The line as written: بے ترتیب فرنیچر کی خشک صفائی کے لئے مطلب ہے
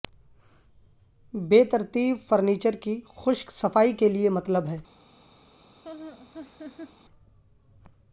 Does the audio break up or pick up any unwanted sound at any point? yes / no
yes